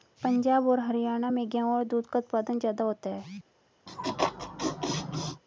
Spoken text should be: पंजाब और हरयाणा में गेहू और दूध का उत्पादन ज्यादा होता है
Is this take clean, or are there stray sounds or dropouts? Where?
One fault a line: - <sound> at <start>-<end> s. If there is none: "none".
- laugh at 3.9-5.4 s